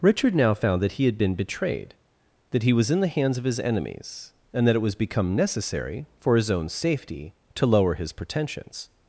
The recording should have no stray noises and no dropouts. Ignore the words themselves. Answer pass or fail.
pass